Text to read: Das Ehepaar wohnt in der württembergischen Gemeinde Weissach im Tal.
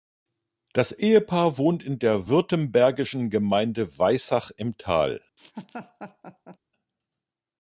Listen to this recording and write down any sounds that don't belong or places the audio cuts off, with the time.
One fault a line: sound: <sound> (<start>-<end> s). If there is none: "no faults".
sound: laugh (5.4-6.6 s)